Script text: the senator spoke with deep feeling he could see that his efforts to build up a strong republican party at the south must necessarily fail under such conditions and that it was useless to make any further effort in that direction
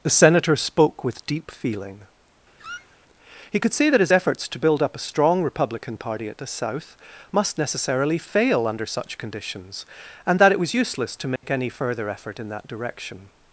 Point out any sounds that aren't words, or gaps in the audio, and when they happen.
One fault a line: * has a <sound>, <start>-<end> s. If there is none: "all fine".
* has a squeak, 2.6-3.0 s
* has a dropout, 11.4-11.4 s